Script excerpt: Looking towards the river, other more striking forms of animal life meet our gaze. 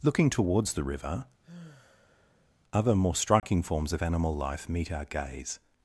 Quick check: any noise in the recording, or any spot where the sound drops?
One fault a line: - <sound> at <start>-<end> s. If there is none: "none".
- sigh at 1.4-2.5 s
- dropout at 3.4-3.4 s